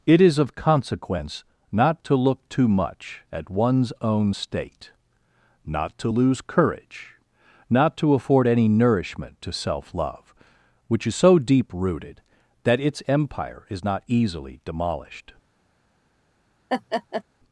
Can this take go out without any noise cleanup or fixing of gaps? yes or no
no